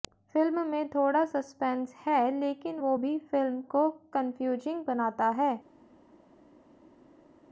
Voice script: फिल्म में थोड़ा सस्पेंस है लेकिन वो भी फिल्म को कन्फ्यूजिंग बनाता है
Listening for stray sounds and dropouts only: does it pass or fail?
pass